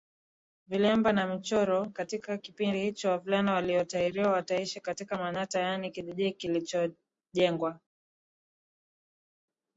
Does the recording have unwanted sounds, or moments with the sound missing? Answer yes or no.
no